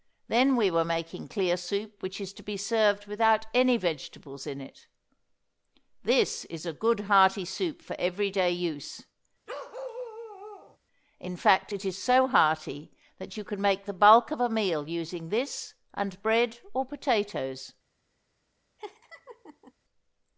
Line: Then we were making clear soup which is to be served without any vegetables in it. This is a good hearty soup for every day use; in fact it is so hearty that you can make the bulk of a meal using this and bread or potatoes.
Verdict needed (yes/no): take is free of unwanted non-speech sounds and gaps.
no